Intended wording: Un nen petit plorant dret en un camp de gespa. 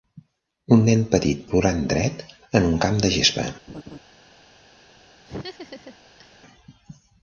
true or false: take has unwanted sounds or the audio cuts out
true